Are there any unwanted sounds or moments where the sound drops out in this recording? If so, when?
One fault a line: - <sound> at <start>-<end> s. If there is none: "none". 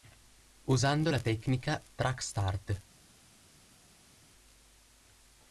none